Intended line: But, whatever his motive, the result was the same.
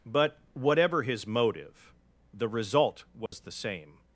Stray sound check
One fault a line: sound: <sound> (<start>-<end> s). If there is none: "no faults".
sound: dropout (3.3-3.3 s)